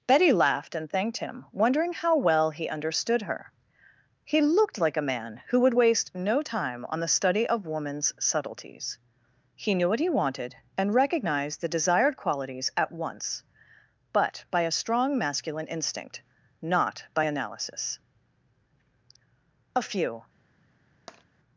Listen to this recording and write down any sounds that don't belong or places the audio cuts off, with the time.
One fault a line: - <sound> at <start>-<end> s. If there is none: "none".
- tap at 21.1-21.2 s